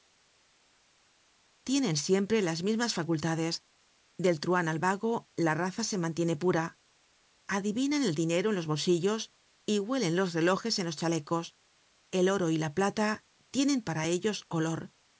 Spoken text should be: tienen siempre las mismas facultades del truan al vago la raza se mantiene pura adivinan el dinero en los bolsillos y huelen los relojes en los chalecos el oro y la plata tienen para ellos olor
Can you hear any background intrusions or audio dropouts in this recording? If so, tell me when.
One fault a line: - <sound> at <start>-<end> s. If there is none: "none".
none